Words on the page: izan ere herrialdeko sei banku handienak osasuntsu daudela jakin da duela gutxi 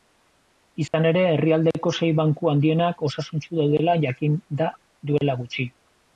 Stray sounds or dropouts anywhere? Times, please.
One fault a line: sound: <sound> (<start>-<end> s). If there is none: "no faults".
sound: dropout (0.9-0.9 s)